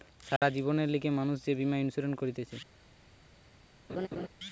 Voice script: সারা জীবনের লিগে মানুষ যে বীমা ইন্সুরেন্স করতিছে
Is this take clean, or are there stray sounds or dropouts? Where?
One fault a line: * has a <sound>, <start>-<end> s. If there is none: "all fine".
* has a dropout, 0.4-0.4 s
* has a laugh, 3.9-4.3 s